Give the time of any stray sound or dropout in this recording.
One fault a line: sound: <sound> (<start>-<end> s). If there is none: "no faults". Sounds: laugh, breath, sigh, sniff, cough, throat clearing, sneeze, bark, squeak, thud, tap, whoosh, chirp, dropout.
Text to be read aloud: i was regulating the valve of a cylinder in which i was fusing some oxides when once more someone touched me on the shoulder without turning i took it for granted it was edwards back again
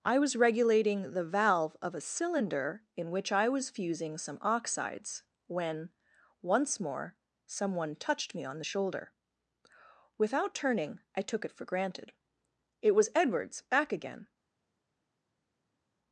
no faults